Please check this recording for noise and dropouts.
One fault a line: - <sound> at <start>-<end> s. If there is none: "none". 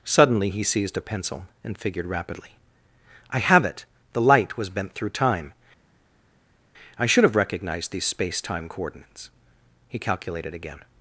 none